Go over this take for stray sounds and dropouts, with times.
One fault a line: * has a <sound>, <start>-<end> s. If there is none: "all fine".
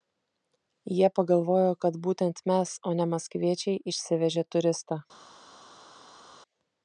all fine